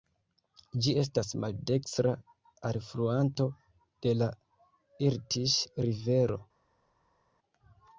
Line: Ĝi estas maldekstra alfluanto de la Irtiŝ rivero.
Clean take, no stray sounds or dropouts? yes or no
yes